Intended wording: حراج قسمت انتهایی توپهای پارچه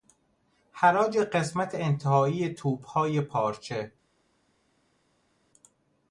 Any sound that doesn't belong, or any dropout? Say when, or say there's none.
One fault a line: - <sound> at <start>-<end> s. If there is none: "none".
none